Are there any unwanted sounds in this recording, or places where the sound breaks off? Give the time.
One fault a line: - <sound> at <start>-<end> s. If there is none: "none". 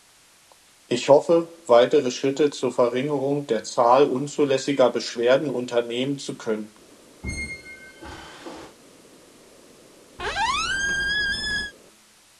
- squeak at 7.2-8.8 s
- squeak at 10.2-11.7 s